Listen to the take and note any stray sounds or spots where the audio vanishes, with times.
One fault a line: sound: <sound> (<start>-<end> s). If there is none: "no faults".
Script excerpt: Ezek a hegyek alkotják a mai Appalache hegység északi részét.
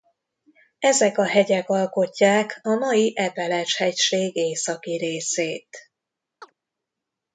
sound: chirp (6.4-6.5 s)